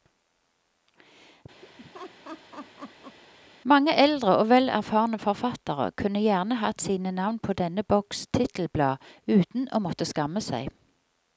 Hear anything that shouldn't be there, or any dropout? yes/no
yes